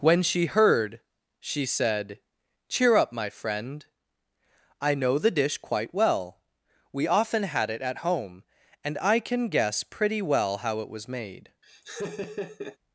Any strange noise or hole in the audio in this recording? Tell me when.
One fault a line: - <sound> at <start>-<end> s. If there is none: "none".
- laugh at 11.6-12.8 s